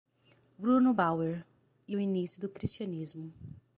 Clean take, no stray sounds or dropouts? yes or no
yes